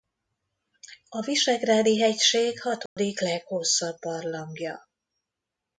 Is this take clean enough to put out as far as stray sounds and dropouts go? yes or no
no